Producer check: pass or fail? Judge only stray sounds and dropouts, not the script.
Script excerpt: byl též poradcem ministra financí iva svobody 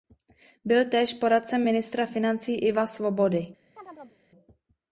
fail